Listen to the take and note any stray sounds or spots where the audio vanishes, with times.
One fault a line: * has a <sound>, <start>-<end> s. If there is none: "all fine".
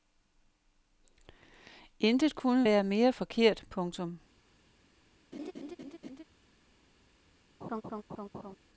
* has a laugh, 5.3-6.2 s
* has a laugh, 7.6-8.6 s